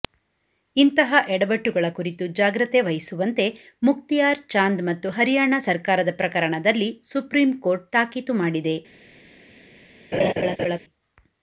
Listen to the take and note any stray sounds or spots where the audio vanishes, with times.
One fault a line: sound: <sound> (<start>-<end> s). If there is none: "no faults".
sound: laugh (10.1-10.8 s)